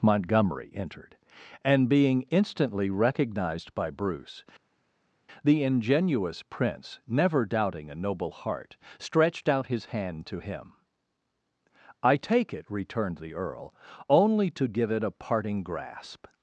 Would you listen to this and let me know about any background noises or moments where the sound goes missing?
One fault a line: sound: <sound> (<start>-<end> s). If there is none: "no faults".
no faults